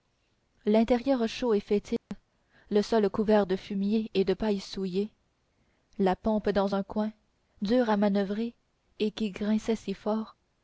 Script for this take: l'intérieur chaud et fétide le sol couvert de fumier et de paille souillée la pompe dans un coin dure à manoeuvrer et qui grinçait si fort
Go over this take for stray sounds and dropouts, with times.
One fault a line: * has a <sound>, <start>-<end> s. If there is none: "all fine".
* has a dropout, 2.0-2.1 s